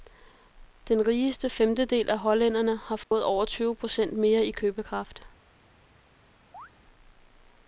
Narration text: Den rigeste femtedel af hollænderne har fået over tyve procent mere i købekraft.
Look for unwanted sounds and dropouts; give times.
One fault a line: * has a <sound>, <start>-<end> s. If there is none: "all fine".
* has a dropout, 3.0-3.1 s
* has a chirp, 6.5-6.7 s